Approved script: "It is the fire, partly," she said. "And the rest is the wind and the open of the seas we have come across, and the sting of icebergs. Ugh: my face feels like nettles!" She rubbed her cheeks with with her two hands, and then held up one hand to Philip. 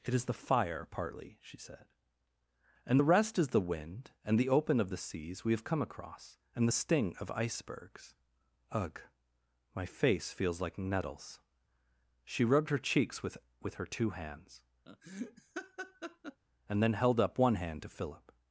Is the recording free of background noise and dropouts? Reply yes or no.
no